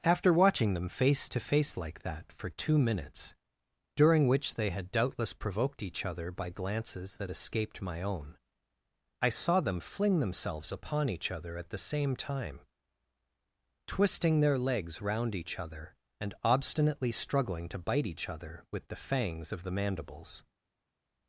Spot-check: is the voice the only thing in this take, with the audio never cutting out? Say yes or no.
yes